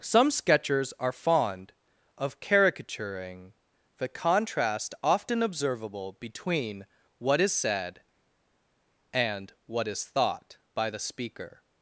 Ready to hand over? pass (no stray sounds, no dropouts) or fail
pass